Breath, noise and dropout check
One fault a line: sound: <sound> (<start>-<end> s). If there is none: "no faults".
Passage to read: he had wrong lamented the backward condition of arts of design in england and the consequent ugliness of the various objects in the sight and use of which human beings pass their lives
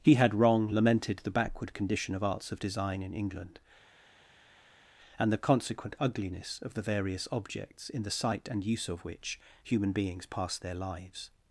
no faults